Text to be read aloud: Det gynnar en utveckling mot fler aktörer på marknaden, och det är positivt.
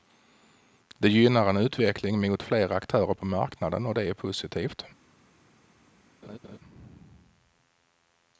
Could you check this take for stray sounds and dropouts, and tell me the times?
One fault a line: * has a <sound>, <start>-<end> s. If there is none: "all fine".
* has a laugh, 6.2-6.6 s